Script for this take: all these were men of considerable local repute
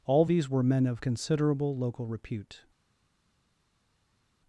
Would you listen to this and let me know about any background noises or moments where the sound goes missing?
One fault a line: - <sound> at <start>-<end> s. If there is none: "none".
none